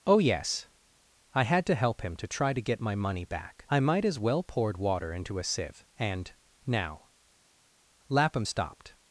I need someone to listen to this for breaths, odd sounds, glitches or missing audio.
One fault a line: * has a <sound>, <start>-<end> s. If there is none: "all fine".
all fine